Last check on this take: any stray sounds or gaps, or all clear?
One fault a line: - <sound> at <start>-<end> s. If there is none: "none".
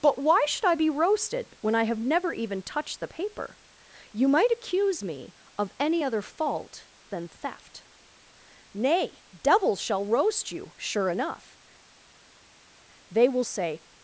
none